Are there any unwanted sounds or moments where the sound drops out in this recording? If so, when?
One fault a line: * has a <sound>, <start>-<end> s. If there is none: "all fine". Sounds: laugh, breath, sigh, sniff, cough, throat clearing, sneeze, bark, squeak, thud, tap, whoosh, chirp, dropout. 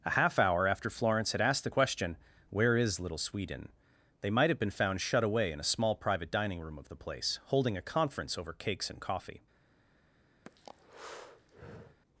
* has a breath, 10.5-12.0 s